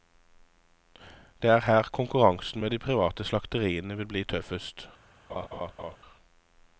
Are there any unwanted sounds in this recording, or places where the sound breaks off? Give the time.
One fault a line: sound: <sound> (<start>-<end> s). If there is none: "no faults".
sound: laugh (5.3-6.0 s)